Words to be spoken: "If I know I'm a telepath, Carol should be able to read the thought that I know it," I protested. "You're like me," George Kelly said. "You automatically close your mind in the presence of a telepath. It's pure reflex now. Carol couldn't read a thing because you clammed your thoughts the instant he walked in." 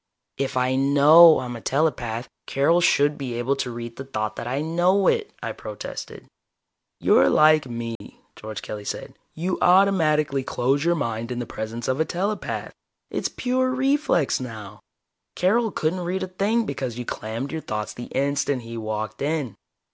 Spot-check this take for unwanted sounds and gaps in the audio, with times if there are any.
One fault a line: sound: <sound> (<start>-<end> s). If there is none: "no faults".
sound: dropout (8.0-8.0 s)